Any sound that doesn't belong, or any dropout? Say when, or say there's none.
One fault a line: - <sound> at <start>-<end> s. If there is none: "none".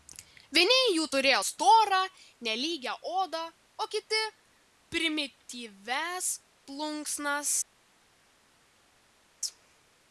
none